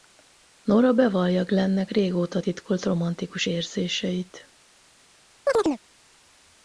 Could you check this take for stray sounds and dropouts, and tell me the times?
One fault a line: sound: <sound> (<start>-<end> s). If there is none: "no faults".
sound: chirp (5.5-5.8 s)